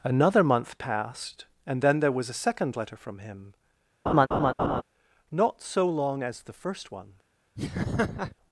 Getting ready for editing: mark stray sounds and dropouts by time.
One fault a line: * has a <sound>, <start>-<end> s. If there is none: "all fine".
* has a laugh, 4.1-4.8 s
* has a laugh, 7.6-8.4 s